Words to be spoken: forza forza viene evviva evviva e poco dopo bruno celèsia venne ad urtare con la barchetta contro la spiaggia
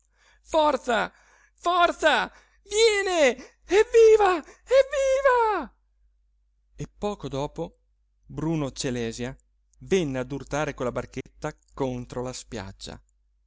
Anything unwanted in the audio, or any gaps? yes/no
yes